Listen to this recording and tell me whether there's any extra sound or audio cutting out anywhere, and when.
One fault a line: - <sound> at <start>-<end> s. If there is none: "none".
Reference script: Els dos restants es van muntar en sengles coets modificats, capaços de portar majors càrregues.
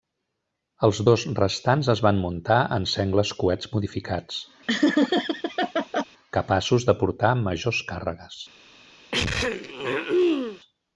- laugh at 4.7-6.0 s
- throat clearing at 9.1-10.6 s